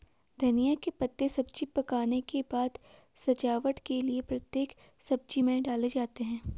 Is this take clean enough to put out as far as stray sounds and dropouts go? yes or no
yes